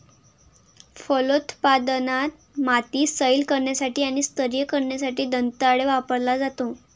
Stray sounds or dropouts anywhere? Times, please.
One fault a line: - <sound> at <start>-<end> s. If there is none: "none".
none